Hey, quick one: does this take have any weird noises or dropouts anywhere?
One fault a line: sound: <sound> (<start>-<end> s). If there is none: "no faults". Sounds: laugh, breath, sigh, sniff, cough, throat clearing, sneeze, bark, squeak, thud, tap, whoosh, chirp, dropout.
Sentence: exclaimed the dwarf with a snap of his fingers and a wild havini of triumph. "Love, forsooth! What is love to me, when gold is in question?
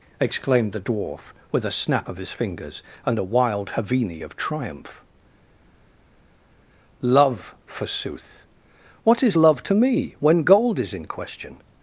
no faults